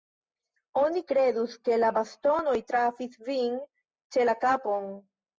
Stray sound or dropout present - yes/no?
no